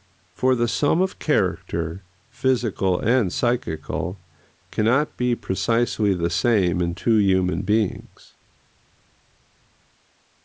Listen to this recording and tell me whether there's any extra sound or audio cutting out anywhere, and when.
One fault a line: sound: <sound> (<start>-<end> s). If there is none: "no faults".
no faults